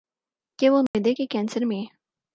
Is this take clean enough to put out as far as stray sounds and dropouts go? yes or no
no